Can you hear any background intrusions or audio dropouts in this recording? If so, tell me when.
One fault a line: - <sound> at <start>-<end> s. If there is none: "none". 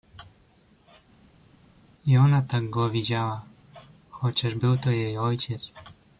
none